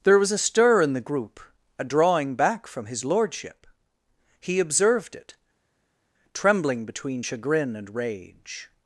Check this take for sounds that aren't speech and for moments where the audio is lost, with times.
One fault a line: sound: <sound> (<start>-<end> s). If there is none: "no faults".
no faults